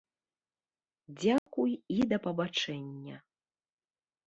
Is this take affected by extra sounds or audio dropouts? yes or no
yes